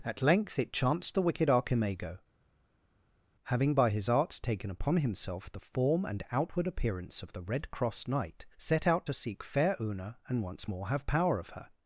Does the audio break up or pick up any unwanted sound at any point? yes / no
no